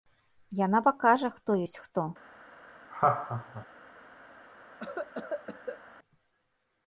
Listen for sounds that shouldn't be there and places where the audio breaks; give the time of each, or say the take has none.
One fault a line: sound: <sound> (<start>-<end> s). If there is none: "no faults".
sound: laugh (2.9-3.7 s)
sound: cough (4.8-5.8 s)